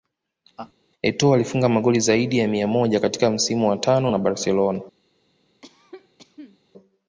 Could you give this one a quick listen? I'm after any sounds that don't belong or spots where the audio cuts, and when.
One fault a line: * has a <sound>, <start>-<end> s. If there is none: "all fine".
* has a laugh, 0.6-0.7 s
* has a cough, 5.6-6.6 s